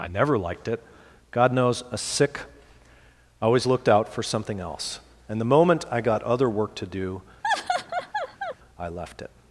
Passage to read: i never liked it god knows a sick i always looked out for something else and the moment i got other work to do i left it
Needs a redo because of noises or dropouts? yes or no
yes